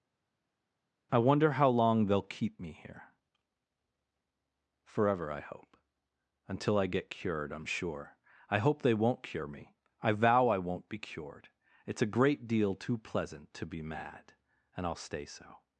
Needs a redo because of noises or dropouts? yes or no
no